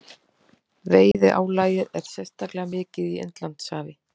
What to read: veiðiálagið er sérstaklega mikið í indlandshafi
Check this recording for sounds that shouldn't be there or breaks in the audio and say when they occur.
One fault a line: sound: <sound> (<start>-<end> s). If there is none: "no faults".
sound: dropout (1.1-1.1 s)